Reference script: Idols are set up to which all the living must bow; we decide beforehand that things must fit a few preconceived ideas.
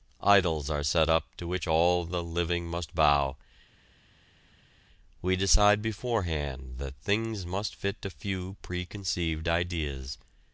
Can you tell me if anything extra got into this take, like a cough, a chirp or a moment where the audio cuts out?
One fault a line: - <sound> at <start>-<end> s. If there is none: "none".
none